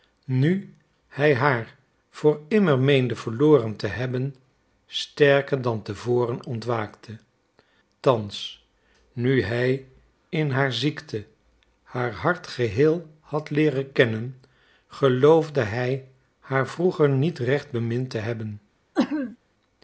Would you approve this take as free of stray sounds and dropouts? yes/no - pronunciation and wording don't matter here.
no